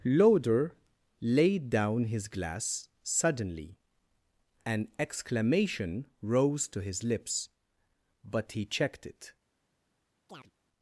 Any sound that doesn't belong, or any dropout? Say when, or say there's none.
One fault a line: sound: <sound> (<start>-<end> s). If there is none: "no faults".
sound: chirp (10.3-10.5 s)